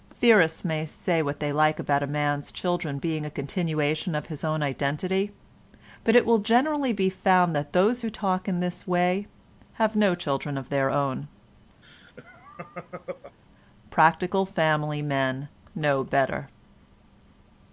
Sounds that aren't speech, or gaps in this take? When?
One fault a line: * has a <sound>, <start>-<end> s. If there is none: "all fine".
* has a laugh, 11.8-13.4 s